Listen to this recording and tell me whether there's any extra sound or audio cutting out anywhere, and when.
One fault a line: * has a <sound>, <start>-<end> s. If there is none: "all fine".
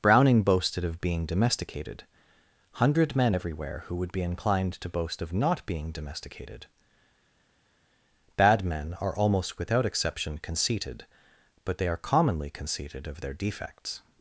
all fine